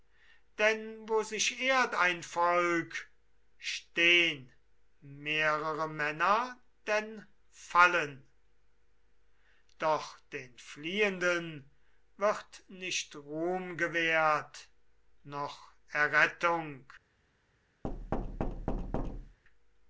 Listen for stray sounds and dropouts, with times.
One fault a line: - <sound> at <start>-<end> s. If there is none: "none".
- thud at 17.8-19.4 s